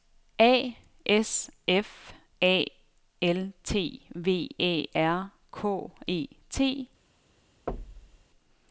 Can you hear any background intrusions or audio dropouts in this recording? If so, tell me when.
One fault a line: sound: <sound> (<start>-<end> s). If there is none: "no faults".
sound: thud (7.7-8.3 s)